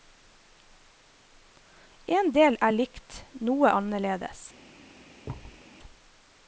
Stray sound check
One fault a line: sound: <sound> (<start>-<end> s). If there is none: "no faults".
sound: thud (5.2-5.6 s)